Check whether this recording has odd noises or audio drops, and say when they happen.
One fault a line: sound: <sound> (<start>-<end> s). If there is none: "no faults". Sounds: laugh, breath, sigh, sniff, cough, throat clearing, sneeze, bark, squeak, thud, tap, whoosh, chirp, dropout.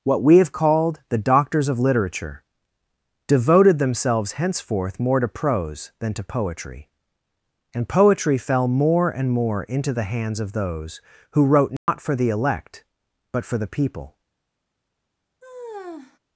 sound: dropout (11.8-11.9 s)
sound: sigh (15.4-16.2 s)